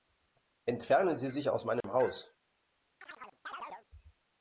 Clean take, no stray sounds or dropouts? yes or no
no